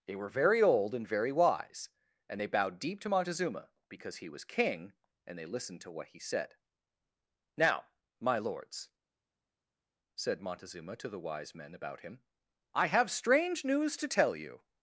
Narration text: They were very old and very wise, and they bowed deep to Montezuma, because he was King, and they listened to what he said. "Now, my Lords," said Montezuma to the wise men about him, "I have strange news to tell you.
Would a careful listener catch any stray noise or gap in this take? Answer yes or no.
no